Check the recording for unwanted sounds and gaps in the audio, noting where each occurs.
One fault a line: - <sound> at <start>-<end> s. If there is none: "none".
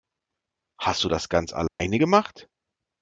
- dropout at 1.7-1.8 s